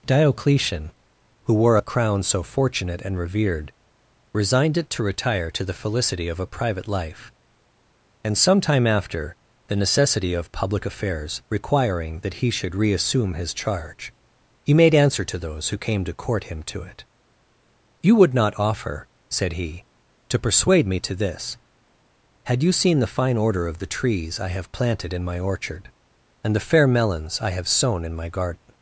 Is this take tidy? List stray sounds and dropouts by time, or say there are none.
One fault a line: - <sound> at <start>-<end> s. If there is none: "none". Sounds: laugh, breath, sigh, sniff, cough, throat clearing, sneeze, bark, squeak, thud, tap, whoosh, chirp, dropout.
none